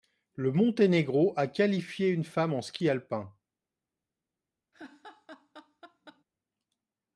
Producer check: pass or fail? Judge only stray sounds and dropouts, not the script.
fail